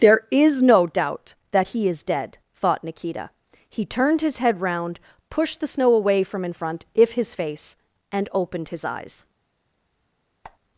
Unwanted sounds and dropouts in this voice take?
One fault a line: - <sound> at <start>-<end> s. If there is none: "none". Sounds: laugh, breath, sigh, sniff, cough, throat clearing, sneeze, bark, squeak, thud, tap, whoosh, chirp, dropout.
- squeak at 10.4-10.6 s